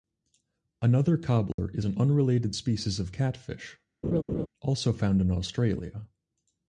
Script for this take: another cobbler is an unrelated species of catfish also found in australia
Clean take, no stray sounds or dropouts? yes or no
no